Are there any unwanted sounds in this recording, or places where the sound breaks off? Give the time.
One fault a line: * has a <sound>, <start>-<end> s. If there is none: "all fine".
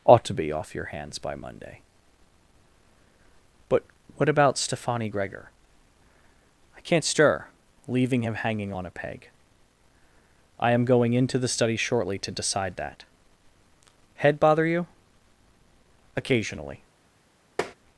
* has a tap, 17.6-17.7 s